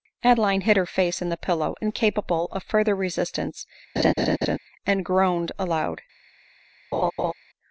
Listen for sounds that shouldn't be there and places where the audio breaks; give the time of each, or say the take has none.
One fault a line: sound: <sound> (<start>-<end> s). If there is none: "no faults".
sound: laugh (4.0-4.6 s)
sound: laugh (6.9-7.3 s)